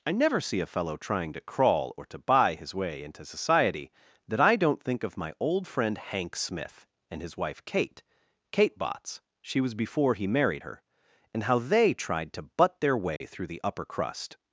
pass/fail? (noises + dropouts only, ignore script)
fail